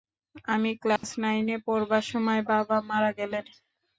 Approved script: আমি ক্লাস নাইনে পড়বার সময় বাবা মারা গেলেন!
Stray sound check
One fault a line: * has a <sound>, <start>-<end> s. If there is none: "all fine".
* has a dropout, 1.0-1.0 s